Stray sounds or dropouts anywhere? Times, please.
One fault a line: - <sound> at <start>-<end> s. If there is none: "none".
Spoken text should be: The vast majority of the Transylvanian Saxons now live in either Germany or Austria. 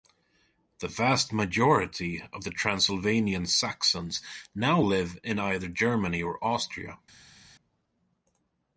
none